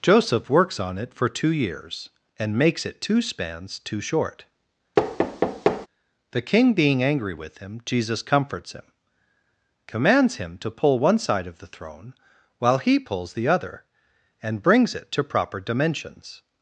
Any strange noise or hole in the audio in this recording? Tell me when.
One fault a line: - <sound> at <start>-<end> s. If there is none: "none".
- thud at 5.0-5.9 s